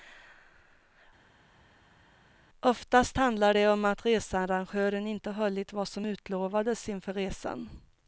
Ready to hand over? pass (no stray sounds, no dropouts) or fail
pass